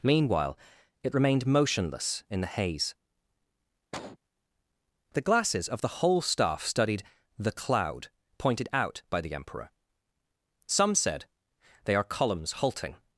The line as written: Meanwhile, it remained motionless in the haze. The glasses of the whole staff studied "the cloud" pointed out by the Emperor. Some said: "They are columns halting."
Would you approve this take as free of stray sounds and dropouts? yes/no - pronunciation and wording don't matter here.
no